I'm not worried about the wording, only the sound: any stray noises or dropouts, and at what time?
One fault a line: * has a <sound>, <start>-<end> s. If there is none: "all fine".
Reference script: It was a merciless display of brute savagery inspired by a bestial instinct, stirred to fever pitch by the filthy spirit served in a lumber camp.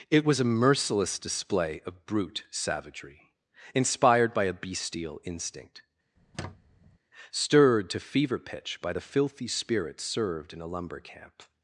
* has a squeak, 6.2-7.0 s